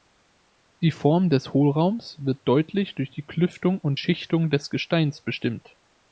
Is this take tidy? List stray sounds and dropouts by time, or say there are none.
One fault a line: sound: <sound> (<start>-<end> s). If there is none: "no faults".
no faults